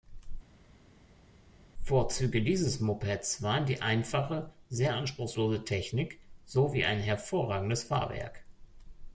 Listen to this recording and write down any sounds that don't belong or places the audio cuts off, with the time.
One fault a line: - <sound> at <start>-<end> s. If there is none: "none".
none